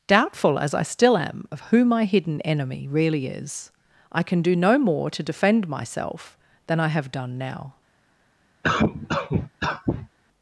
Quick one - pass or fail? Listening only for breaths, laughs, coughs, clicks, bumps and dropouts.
fail